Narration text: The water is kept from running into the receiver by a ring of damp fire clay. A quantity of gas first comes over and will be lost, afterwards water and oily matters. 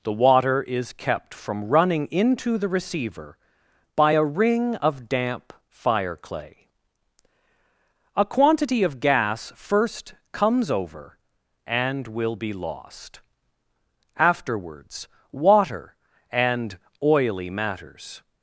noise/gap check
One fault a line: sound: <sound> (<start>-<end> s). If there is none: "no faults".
no faults